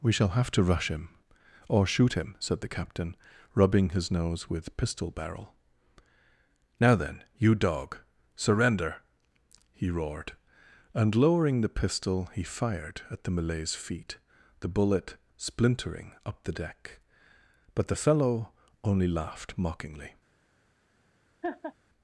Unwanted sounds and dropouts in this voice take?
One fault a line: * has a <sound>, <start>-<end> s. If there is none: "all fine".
* has a laugh, 21.4-21.7 s